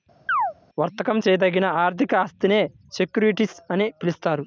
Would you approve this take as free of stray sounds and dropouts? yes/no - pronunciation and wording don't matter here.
no